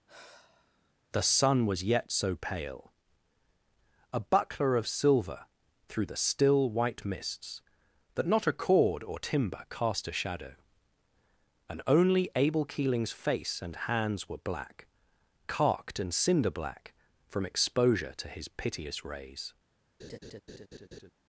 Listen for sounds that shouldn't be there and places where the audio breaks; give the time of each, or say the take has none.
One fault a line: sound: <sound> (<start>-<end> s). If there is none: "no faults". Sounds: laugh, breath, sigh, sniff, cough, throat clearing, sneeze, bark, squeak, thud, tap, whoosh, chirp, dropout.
sound: sigh (0.1-0.9 s)
sound: laugh (20.0-21.1 s)